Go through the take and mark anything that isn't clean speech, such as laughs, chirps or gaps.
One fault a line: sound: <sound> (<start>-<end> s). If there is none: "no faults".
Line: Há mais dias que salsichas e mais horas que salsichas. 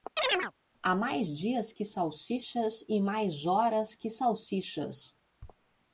sound: chirp (0.2-0.5 s)